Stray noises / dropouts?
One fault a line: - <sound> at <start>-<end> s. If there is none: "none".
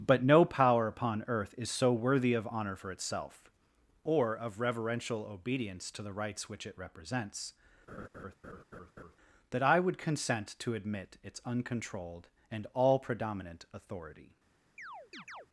- laugh at 7.9-9.2 s
- chirp at 14.8-15.5 s